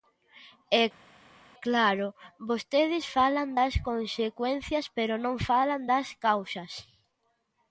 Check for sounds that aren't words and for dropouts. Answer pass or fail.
pass